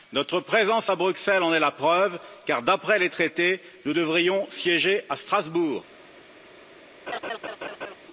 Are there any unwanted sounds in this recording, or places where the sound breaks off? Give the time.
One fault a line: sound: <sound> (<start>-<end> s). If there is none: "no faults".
sound: laugh (7.1-7.9 s)